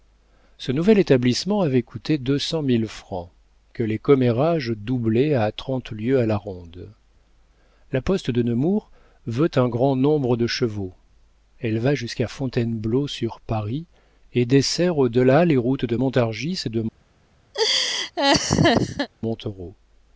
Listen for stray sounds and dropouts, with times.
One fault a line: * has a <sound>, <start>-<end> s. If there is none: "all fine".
* has a laugh, 17.5-19.1 s